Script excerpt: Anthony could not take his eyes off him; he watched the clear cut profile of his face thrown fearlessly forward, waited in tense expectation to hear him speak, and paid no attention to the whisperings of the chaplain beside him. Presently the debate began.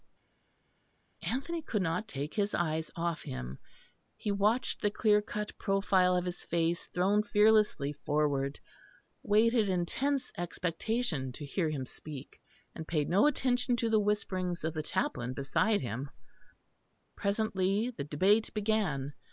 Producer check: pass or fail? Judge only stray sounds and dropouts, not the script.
pass